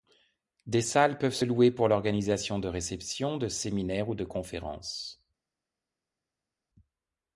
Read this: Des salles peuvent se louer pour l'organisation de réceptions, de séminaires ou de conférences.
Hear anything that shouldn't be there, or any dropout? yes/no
no